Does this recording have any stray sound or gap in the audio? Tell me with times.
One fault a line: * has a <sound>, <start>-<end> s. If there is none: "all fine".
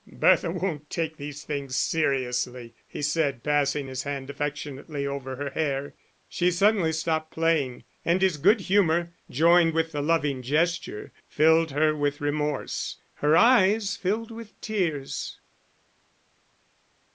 all fine